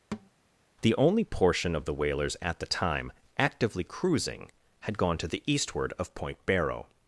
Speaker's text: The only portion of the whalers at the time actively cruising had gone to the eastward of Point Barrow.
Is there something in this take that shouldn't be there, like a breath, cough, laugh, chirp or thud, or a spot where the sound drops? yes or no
yes